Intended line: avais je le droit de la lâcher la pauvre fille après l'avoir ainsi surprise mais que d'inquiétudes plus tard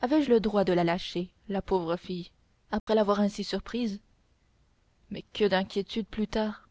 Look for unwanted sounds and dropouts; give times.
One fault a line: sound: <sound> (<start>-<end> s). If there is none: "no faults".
sound: dropout (2.8-2.9 s)